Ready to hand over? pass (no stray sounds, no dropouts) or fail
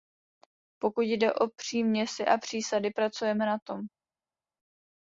pass